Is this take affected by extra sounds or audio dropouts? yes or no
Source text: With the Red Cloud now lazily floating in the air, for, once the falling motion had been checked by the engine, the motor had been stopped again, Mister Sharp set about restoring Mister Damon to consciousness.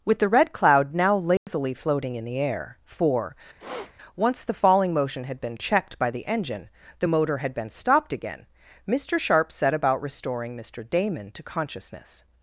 yes